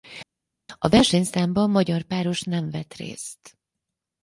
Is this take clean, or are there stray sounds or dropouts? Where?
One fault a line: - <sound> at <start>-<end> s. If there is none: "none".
none